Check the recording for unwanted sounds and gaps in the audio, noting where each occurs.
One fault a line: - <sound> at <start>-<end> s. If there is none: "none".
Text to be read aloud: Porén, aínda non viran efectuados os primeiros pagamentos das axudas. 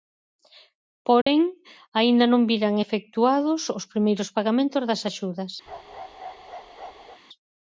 - dropout at 1.2-1.3 s
- bark at 5.7-7.2 s